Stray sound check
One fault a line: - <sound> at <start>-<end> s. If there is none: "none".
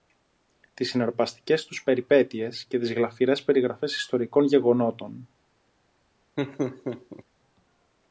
- laugh at 6.4-7.2 s